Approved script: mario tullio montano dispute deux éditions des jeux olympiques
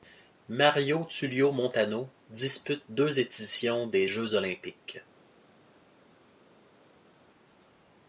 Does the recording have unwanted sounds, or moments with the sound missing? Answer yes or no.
no